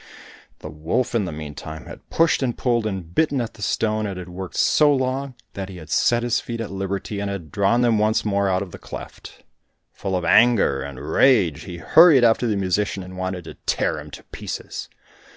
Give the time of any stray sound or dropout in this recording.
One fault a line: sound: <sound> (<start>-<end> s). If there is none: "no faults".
no faults